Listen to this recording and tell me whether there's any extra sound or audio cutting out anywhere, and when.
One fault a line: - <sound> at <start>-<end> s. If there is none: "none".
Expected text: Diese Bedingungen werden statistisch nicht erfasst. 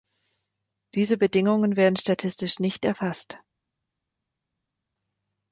none